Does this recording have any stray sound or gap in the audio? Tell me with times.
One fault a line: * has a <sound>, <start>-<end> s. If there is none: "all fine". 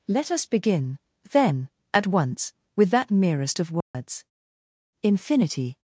* has a dropout, 3.8-3.9 s